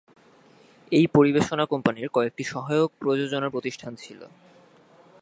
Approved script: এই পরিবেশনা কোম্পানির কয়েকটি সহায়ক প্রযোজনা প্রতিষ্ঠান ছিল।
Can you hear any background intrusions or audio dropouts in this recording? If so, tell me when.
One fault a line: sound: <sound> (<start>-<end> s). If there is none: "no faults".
no faults